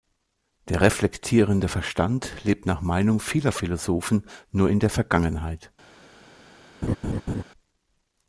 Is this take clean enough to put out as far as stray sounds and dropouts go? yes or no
no